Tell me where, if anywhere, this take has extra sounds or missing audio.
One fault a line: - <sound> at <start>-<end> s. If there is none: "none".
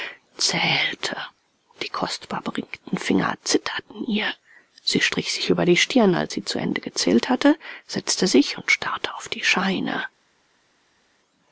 none